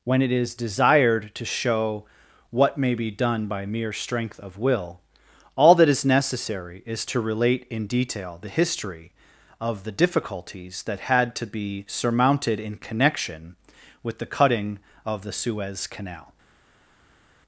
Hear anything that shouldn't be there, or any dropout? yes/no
no